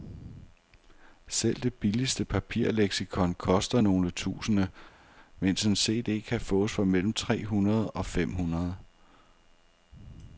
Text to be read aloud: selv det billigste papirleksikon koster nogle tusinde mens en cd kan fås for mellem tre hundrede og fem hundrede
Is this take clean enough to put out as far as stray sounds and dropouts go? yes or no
yes